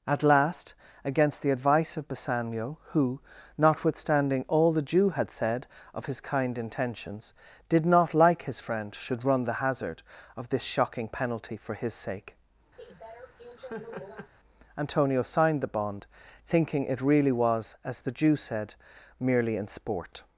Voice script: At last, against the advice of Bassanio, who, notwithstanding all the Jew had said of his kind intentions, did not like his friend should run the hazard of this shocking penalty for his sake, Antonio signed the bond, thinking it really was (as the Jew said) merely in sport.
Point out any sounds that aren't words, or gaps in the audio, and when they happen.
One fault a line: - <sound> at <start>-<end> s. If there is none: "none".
- laugh at 12.8-14.3 s